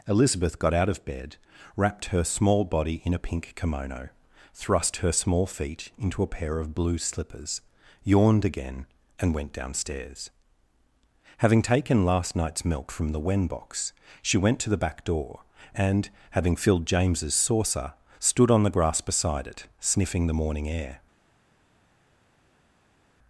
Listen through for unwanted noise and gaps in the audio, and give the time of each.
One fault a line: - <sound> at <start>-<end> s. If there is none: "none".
none